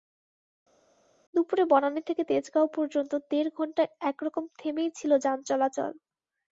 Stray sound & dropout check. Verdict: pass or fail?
pass